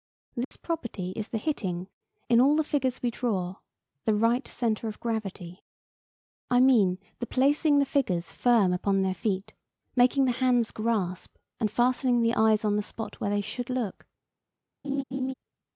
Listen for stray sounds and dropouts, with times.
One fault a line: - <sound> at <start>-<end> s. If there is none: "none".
- dropout at 0.4-0.5 s
- laugh at 14.8-15.3 s